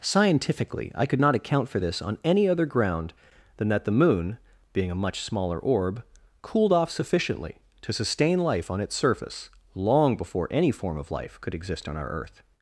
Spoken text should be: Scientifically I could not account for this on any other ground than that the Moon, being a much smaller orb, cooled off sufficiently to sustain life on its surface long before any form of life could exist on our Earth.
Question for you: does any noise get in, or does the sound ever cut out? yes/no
no